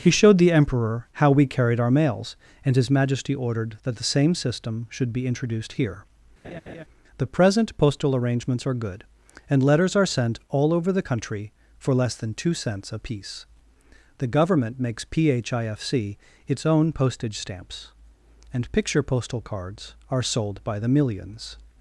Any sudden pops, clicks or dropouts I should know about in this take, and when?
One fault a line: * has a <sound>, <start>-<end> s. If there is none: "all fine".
* has a laugh, 6.4-6.8 s